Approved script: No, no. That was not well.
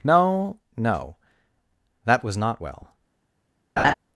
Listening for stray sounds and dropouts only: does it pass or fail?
fail